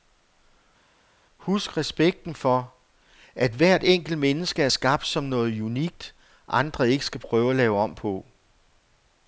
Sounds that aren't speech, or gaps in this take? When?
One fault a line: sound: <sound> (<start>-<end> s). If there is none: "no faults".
no faults